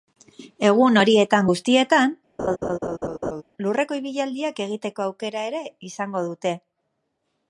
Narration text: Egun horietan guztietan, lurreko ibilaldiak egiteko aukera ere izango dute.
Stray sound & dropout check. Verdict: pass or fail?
fail